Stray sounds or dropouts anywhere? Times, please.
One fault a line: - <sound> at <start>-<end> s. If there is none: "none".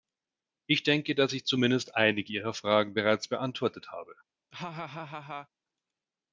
- laugh at 4.5-5.5 s